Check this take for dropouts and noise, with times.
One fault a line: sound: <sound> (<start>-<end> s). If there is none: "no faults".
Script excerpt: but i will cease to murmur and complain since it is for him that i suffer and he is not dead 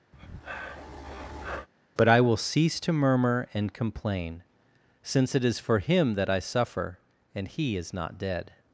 sound: breath (0.1-1.7 s)